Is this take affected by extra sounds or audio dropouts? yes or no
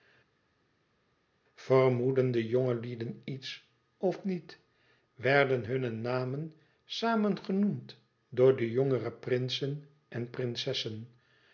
no